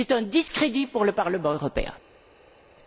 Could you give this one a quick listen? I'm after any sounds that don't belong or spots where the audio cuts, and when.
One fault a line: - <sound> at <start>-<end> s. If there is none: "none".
none